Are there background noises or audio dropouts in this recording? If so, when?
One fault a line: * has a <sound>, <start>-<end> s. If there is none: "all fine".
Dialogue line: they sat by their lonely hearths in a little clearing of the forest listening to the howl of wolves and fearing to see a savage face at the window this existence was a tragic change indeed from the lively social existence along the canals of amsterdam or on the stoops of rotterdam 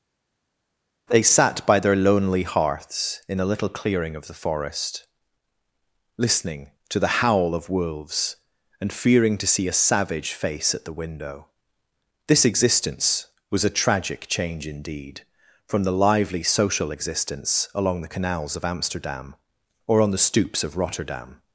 all fine